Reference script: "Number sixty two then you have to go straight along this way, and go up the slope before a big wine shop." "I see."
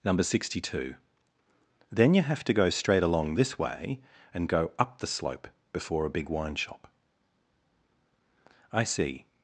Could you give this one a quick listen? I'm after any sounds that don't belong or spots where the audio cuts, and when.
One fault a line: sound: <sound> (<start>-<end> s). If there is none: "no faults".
no faults